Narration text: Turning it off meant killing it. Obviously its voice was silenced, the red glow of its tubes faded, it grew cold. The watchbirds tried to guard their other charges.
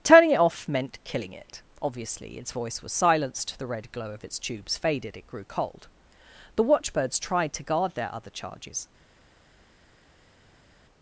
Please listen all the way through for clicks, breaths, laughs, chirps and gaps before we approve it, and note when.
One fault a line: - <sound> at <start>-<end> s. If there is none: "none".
none